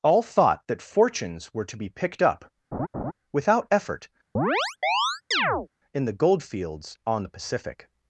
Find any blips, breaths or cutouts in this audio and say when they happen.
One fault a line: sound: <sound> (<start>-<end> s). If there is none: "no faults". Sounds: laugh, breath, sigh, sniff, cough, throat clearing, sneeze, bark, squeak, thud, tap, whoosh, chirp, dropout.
sound: laugh (2.7-3.1 s)
sound: chirp (4.4-5.7 s)